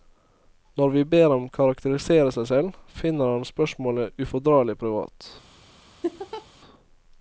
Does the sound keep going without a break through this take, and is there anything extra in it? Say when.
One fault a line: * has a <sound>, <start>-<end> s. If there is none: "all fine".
* has a laugh, 6.0-6.5 s